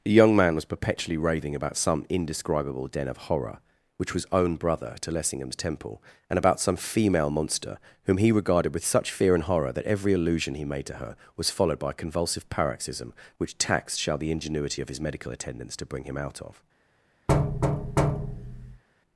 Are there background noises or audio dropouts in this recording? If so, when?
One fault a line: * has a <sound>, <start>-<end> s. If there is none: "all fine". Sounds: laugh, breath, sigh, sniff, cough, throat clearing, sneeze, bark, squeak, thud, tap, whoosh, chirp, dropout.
* has a thud, 17.3-18.8 s